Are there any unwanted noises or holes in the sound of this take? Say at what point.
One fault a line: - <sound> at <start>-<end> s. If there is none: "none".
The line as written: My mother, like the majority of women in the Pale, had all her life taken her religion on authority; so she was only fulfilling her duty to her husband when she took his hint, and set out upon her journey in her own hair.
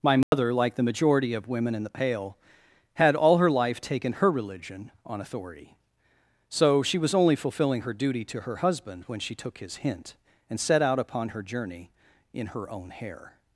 - dropout at 0.2-0.3 s